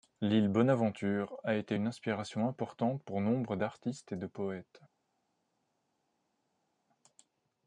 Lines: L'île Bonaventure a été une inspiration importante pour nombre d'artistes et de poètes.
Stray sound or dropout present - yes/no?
no